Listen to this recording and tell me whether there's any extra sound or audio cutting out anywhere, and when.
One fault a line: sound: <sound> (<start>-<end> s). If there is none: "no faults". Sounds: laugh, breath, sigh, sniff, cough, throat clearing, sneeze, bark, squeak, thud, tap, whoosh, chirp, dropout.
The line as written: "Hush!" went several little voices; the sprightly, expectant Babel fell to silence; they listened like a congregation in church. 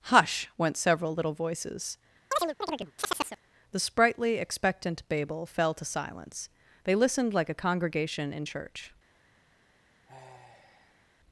sound: chirp (2.3-3.4 s)
sound: sigh (10.0-11.1 s)